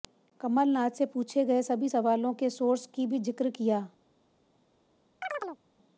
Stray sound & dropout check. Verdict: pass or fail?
fail